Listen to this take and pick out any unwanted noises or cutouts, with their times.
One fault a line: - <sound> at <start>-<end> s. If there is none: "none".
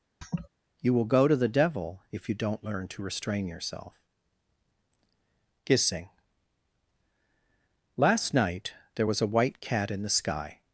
- laugh at 0.2-0.5 s